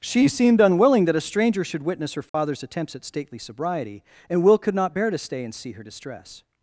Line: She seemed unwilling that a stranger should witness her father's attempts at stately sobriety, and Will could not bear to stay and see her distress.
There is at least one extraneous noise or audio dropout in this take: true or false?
true